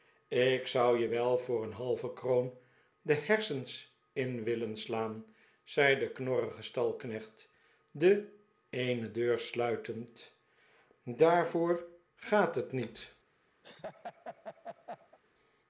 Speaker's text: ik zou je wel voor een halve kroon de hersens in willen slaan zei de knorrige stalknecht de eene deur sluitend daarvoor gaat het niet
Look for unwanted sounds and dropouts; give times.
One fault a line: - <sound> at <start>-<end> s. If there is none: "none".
- laugh at 13.6-15.2 s